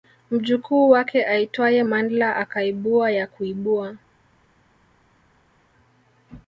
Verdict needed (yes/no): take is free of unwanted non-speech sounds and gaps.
yes